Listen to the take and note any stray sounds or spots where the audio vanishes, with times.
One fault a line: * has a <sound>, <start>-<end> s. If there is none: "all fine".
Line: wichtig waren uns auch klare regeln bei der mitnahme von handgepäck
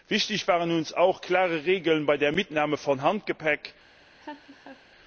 * has a laugh, 4.2-4.8 s